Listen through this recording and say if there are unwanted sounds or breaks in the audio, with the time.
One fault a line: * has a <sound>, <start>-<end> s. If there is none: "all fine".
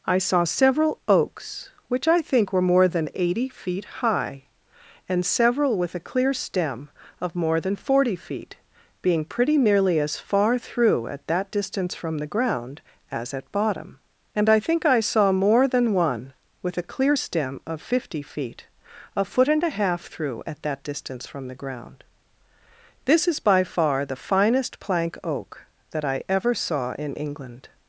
all fine